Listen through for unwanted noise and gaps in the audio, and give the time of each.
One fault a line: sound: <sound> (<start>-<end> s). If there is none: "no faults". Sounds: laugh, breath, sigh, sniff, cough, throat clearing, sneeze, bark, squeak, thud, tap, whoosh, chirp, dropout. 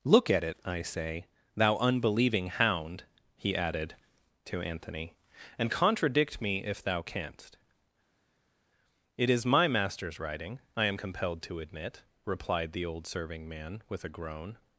no faults